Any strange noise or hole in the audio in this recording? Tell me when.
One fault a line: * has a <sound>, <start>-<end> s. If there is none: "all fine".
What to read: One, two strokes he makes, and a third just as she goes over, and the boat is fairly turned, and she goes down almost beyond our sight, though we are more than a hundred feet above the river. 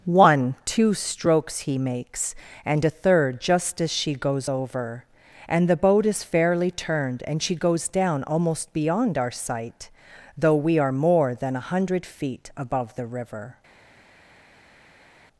all fine